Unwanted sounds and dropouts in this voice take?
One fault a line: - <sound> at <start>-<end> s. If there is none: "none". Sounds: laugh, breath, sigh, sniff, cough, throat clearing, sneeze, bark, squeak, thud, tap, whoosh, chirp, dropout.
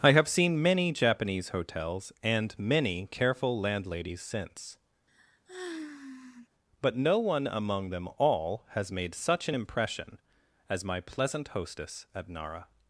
- sigh at 5.1-6.5 s